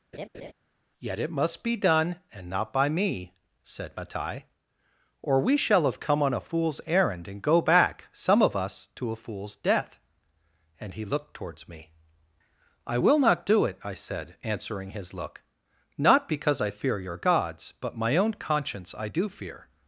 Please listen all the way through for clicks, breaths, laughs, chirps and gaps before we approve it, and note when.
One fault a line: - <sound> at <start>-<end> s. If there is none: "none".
- laugh at 0.1-0.5 s